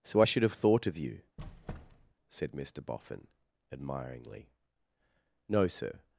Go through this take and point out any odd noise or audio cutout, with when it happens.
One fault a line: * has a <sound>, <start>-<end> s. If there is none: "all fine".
* has a squeak, 1.4-2.1 s